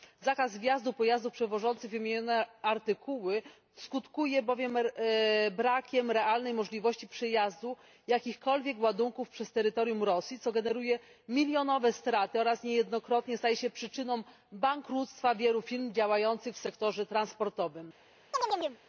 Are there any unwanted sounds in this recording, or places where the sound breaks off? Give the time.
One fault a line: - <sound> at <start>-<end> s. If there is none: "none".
- chirp at 18.3-18.8 s